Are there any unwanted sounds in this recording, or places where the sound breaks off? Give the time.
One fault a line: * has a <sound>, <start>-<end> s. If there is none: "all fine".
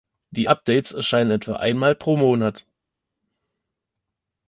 all fine